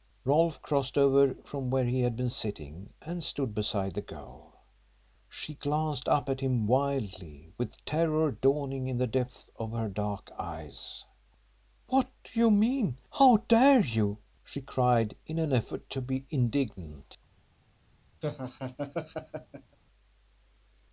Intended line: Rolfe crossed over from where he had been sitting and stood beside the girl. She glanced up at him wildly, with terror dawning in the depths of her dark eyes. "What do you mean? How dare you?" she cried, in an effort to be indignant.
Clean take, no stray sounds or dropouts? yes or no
no